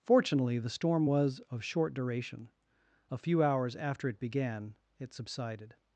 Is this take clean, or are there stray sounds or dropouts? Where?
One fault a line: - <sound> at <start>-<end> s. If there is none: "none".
none